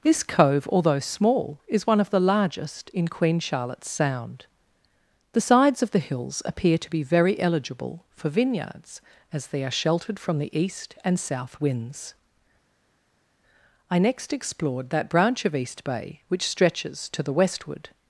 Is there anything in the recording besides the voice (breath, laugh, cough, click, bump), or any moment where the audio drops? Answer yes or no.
no